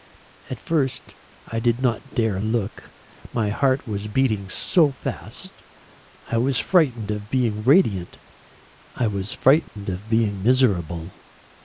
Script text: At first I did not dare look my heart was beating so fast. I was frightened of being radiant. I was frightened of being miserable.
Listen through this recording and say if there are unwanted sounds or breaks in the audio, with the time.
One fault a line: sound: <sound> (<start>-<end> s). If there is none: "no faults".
sound: dropout (9.7-9.8 s)